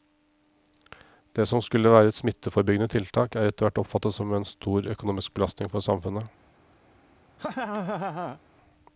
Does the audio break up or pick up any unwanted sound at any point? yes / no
yes